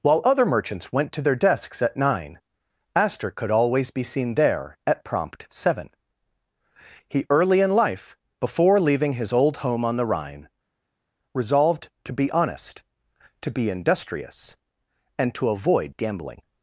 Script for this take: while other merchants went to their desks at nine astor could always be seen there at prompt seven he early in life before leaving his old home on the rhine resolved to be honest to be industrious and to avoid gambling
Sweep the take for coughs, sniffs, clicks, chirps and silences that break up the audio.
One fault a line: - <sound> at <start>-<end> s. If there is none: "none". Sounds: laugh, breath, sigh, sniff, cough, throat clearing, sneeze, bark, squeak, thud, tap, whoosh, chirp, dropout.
none